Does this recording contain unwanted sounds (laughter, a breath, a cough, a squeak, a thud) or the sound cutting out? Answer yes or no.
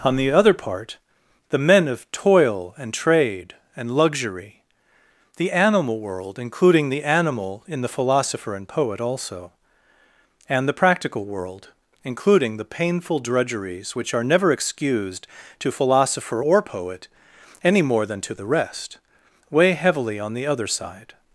no